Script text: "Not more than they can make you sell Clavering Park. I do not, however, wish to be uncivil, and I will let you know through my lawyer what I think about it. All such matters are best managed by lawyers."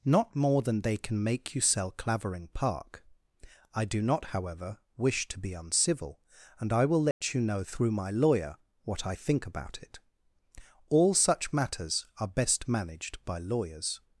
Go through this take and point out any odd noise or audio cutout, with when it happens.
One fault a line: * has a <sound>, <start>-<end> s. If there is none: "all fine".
* has a dropout, 7.1-7.2 s